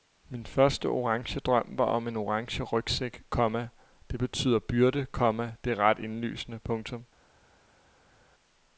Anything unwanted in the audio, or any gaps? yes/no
no